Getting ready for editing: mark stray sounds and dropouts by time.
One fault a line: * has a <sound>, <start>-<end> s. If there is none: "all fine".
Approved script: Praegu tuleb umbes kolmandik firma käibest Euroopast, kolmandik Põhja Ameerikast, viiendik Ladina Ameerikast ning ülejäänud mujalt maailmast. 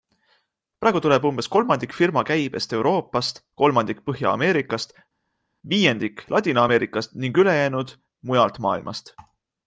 all fine